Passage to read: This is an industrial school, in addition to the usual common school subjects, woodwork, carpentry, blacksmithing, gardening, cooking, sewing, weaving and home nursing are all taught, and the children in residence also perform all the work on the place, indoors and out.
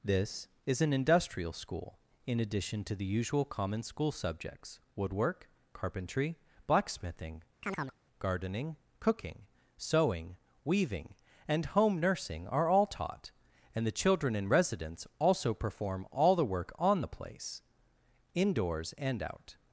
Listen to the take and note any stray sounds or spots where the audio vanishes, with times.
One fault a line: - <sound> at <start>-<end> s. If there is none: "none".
- chirp at 7.6-8.0 s